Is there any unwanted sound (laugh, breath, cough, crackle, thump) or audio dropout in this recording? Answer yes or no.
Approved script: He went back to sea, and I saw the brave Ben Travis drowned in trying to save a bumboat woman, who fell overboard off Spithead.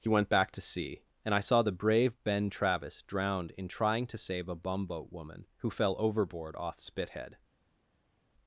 no